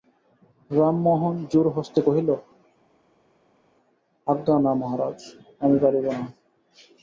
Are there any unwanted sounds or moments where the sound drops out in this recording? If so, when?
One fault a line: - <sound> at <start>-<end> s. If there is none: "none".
none